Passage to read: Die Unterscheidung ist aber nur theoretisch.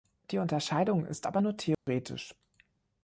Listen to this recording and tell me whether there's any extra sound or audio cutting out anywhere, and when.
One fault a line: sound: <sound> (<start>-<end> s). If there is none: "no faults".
sound: dropout (1.7-1.9 s)